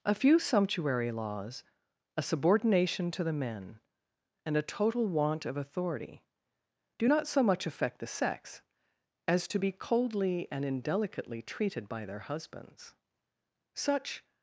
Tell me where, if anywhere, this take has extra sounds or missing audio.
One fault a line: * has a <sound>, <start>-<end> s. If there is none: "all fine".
all fine